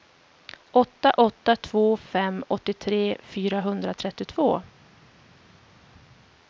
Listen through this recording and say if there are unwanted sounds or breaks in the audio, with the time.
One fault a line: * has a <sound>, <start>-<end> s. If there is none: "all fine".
all fine